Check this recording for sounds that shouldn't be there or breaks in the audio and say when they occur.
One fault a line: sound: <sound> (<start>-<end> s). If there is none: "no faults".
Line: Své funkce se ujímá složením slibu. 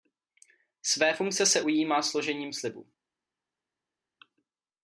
no faults